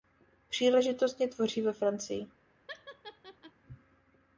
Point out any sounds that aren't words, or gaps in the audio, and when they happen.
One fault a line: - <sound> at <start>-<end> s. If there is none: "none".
- laugh at 2.7-3.5 s